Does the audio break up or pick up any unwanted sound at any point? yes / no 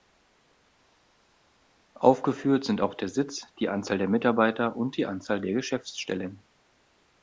no